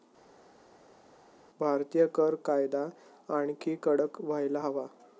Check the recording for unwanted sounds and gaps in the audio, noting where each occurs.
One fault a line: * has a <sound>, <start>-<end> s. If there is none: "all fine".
all fine